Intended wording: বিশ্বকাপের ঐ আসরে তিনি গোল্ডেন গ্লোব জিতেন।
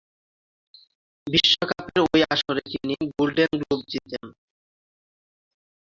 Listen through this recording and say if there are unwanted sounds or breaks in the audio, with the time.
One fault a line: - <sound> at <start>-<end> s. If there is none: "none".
none